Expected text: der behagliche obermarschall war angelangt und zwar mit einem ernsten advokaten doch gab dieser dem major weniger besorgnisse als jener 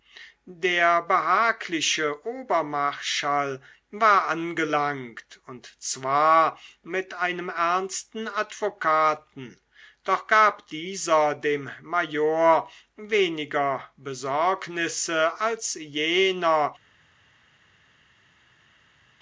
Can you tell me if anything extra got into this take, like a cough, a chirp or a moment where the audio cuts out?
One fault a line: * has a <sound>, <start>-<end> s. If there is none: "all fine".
all fine